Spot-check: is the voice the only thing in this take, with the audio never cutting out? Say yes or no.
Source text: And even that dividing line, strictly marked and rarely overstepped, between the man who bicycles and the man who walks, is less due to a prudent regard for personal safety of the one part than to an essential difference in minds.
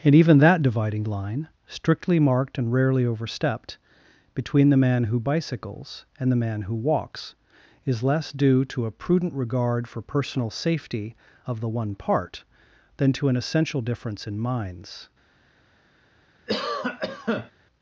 no